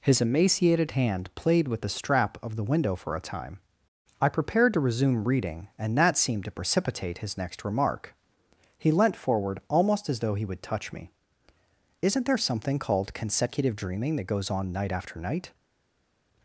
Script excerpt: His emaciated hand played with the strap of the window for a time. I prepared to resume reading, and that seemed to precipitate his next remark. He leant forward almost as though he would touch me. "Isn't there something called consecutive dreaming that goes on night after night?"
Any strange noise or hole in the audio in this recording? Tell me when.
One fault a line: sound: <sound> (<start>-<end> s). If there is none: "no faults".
no faults